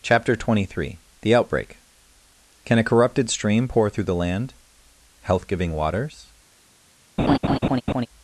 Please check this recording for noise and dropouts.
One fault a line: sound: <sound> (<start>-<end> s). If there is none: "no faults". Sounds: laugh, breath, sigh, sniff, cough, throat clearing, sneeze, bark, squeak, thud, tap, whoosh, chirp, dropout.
sound: laugh (7.2-8.1 s)